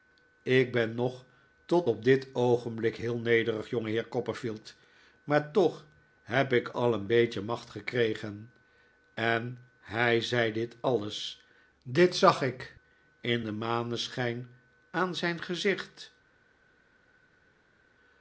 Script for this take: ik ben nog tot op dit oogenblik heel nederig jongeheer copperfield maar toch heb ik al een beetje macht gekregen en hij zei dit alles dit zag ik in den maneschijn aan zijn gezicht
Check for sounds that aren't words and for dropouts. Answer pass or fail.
pass